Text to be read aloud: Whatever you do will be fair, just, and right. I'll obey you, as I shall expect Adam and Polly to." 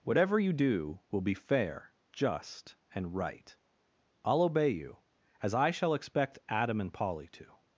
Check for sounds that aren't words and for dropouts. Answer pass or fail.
pass